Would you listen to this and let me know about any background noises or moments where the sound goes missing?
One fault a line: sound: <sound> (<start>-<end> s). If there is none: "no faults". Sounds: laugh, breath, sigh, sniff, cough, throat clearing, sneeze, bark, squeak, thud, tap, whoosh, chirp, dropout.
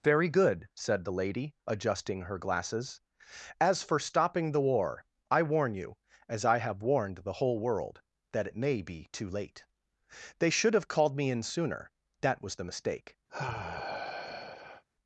sound: sigh (13.3-14.8 s)